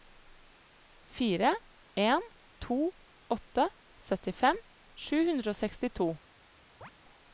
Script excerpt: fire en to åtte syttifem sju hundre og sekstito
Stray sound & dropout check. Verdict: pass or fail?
fail